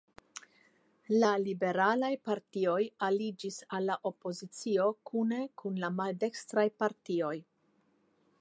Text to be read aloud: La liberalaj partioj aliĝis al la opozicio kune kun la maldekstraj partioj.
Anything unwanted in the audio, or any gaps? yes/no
no